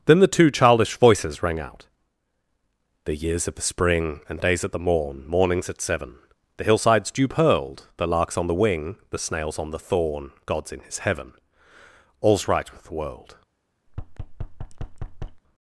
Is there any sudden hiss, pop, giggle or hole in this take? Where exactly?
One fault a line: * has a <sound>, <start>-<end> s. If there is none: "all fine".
* has a thud, 13.9-15.4 s